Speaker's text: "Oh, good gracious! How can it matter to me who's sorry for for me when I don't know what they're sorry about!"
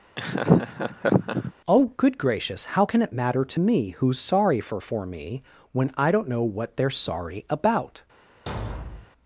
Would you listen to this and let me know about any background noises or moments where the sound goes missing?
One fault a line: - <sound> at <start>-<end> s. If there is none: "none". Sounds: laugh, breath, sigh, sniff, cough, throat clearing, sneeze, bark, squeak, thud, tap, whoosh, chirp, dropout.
- laugh at 0.2-1.5 s
- thud at 8.5-9.1 s